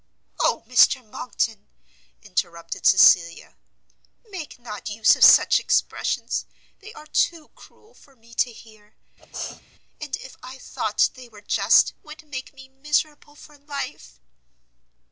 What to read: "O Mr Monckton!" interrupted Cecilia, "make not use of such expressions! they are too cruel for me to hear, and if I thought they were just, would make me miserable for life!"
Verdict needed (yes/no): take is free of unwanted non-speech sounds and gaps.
no